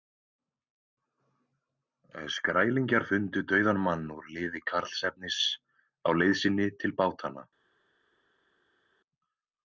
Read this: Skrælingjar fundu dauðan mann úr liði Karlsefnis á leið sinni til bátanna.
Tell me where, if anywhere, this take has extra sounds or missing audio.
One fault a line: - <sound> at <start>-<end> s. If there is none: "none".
none